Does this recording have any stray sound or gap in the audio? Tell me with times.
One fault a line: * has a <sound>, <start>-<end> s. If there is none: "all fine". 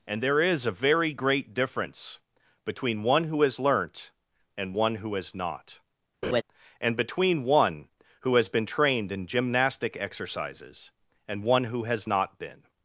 * has a laugh, 6.2-6.4 s